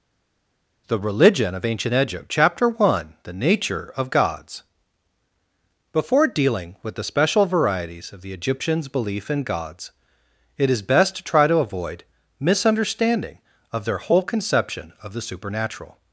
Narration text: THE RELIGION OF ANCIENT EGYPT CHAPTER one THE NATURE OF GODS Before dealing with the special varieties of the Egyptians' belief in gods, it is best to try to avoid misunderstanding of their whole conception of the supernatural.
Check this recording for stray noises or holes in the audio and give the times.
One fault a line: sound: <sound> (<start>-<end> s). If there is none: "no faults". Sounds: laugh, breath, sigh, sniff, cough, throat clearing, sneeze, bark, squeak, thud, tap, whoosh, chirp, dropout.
no faults